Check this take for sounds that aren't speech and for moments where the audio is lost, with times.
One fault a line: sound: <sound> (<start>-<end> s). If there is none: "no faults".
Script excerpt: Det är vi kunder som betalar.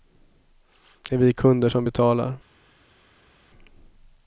no faults